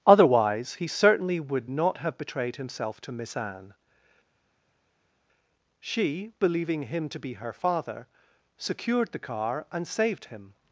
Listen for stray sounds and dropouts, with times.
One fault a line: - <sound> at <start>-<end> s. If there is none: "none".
none